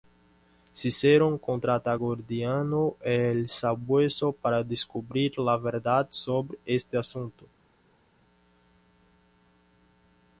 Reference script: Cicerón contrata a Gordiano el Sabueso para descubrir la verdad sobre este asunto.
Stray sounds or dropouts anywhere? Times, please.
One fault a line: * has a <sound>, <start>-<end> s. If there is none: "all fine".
all fine